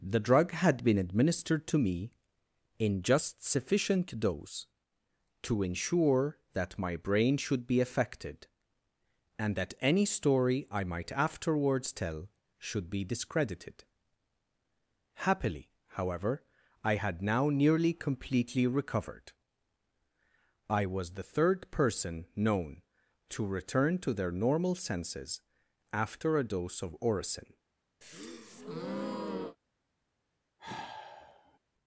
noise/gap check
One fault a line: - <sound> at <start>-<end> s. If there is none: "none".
- breath at 28.0-29.6 s
- sigh at 30.6-31.6 s